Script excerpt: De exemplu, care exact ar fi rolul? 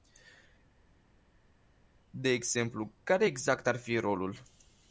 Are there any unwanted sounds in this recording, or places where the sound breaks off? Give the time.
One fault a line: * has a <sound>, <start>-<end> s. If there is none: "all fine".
all fine